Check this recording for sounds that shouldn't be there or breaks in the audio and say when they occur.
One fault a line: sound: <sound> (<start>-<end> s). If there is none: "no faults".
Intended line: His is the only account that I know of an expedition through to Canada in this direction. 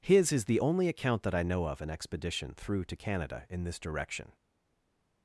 no faults